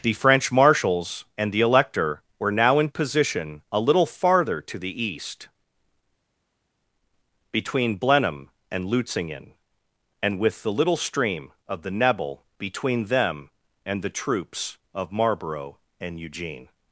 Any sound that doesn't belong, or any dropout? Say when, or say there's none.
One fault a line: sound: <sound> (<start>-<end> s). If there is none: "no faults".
no faults